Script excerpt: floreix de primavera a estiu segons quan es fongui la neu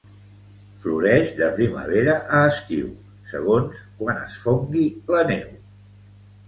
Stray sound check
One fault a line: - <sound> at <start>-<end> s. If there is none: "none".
none